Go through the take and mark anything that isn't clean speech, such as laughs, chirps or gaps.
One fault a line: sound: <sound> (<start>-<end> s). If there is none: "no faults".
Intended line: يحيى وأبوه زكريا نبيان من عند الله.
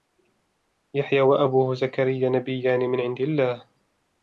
no faults